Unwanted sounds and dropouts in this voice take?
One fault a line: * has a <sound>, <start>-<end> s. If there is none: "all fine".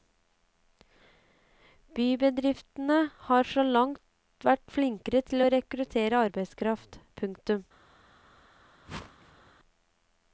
* has a whoosh, 8.9-9.5 s